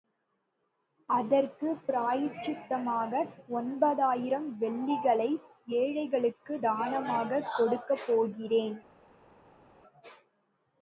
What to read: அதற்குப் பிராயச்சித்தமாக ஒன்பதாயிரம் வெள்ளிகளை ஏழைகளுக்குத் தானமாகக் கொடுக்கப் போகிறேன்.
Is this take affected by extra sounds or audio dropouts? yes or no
no